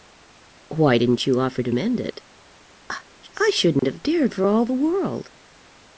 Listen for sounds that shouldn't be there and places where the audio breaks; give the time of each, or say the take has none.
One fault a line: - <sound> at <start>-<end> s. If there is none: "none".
- dropout at 3.8-3.8 s